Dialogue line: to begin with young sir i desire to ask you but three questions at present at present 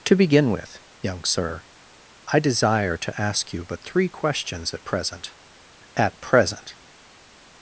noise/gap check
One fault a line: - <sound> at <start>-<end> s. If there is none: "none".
none